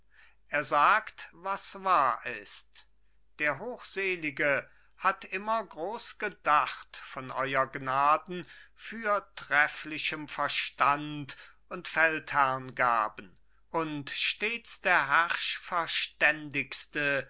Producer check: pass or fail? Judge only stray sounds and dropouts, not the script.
pass